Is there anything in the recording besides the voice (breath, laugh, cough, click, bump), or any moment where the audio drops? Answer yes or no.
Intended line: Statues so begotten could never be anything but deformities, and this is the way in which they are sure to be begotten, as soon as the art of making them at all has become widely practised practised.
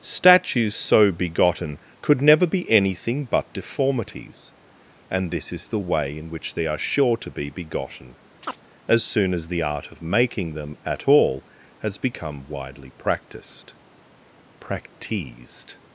yes